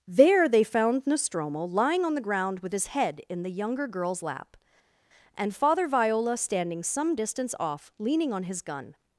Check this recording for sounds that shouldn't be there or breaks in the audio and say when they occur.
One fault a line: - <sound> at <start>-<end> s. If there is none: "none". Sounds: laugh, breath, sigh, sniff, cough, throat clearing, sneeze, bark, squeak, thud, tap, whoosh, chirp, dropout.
none